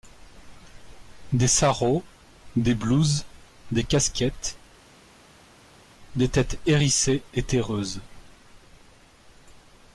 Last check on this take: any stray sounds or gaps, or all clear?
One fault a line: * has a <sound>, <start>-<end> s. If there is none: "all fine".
all fine